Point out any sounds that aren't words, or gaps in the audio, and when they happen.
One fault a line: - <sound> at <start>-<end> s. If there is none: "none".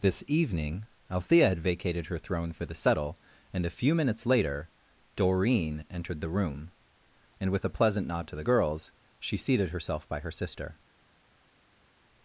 none